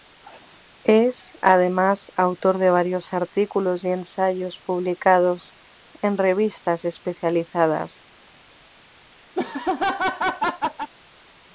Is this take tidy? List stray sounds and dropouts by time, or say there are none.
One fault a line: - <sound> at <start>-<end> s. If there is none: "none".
- laugh at 9.3-10.9 s